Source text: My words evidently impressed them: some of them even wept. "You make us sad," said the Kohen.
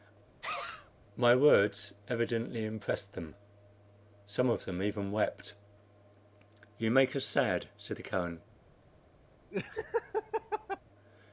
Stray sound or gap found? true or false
true